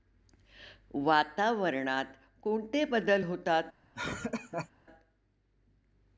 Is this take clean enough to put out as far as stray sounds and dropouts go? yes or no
no